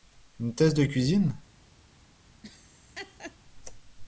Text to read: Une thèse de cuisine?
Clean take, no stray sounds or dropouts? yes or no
no